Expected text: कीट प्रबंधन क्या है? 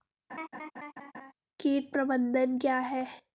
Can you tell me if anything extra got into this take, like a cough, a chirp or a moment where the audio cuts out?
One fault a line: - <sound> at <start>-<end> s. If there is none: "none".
- laugh at 0.3-1.3 s